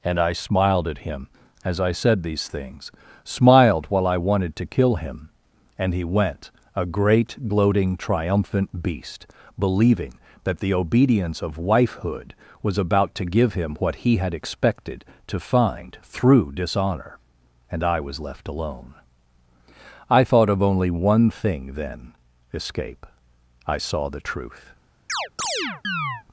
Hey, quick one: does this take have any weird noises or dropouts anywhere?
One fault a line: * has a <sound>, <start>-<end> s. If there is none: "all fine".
* has a chirp, 25.1-26.2 s